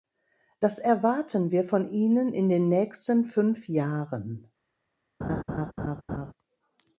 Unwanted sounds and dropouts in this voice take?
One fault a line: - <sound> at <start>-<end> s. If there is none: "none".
- laugh at 5.2-6.3 s